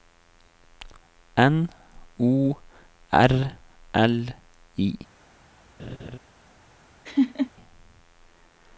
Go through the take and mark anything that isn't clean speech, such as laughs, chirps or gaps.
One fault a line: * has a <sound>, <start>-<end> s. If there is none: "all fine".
* has a laugh, 5.8-6.2 s
* has a laugh, 7.0-7.5 s